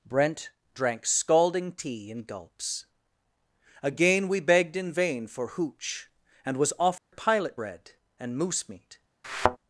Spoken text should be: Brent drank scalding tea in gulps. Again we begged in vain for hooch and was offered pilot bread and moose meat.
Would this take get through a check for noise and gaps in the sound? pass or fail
fail